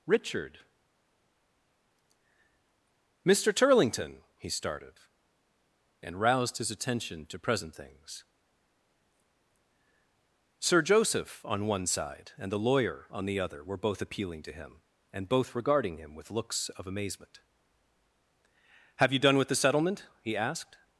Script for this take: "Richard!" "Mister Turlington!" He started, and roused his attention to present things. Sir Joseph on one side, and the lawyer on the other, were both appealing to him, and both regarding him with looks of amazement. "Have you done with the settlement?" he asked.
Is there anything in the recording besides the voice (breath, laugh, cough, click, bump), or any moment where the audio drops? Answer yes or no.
no